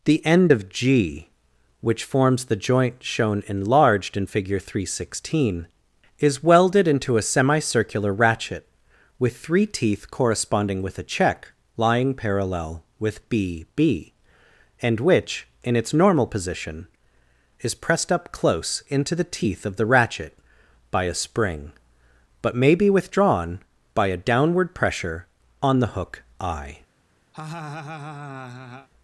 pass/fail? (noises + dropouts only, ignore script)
fail